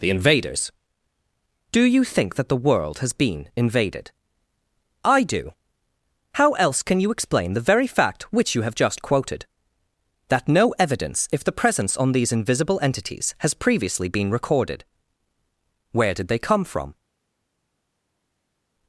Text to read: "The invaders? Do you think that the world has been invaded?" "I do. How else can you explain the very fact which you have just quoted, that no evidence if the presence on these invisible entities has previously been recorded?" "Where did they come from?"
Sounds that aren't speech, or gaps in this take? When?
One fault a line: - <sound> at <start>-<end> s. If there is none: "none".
none